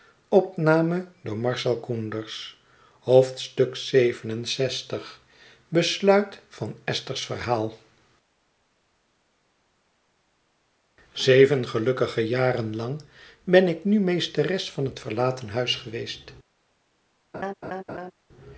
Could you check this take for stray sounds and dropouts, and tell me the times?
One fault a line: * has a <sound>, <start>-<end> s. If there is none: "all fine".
* has a laugh, 17.3-18.1 s